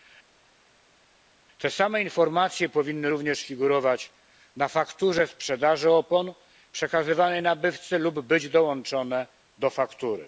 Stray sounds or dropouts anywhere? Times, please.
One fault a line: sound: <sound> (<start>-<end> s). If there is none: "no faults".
no faults